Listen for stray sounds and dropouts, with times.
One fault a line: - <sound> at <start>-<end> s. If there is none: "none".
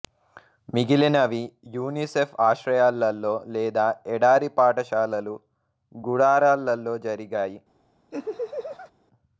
- laugh at 8.1-8.9 s